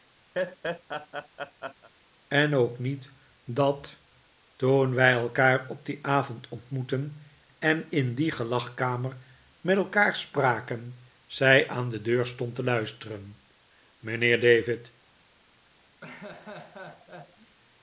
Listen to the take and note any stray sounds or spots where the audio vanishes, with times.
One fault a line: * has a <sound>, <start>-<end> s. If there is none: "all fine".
* has a laugh, 0.3-1.9 s
* has a laugh, 16.0-17.6 s